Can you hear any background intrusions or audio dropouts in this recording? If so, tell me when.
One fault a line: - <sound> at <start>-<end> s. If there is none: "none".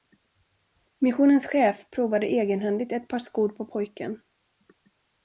none